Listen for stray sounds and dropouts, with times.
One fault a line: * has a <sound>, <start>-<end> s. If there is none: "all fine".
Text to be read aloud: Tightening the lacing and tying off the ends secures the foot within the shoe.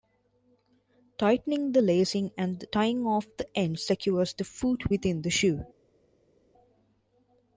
all fine